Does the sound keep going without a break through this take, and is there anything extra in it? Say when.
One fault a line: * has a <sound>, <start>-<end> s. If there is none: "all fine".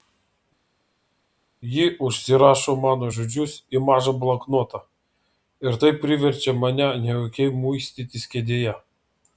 all fine